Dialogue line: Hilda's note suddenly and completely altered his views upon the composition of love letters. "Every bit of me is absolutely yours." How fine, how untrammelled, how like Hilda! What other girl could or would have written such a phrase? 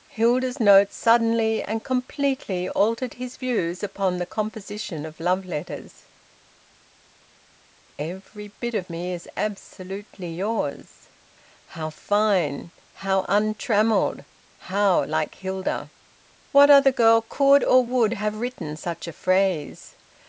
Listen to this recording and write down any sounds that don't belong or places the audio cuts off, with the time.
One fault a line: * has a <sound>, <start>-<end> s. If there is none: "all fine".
all fine